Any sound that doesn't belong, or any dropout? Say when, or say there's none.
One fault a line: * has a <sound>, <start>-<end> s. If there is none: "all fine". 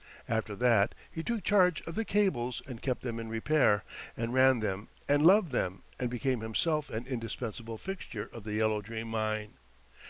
all fine